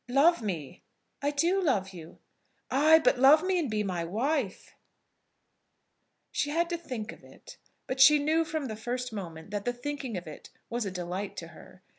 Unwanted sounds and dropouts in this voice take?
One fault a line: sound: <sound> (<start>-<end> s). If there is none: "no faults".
no faults